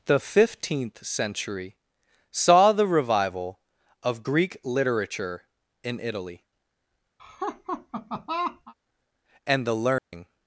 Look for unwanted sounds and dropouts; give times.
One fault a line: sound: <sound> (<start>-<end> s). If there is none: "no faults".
sound: laugh (7.2-8.7 s)
sound: dropout (10.0-10.1 s)